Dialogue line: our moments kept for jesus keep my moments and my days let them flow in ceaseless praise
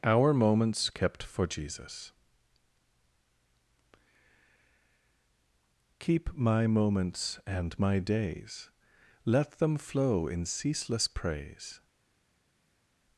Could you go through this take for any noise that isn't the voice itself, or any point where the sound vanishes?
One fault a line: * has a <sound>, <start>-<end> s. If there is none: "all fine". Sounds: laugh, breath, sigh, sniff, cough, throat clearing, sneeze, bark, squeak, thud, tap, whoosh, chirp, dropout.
all fine